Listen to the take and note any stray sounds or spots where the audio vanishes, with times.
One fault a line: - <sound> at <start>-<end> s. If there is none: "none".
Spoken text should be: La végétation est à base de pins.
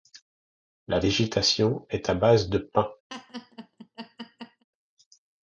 - laugh at 3.1-4.6 s